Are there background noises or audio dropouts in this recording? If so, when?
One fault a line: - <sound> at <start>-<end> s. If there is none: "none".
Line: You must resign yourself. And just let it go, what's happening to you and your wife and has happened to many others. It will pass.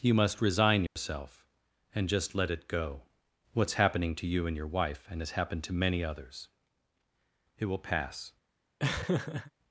- dropout at 0.9-1.0 s
- laugh at 8.8-9.5 s